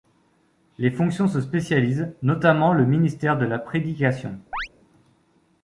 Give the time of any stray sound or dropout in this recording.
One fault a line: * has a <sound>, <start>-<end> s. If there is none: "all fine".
* has a chirp, 4.5-4.7 s